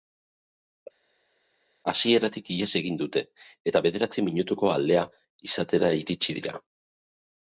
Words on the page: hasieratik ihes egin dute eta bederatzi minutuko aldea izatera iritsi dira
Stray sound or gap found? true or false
false